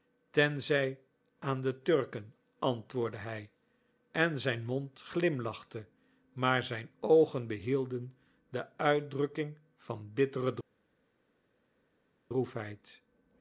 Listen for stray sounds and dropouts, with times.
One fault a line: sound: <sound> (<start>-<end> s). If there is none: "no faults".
no faults